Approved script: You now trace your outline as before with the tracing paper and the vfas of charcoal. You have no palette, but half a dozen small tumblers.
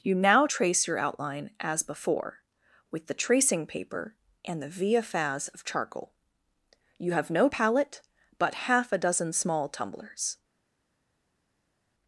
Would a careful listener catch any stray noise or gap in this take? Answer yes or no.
no